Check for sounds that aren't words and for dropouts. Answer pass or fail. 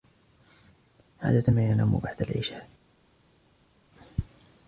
pass